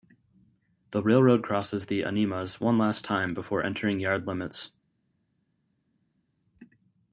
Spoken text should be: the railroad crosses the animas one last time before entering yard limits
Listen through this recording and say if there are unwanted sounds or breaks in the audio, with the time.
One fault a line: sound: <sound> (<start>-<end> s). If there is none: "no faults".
no faults